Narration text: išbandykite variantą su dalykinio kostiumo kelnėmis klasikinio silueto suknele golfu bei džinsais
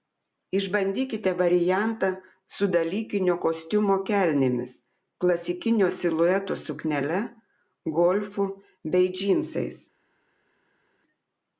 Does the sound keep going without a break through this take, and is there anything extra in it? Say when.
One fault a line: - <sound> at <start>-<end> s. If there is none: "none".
none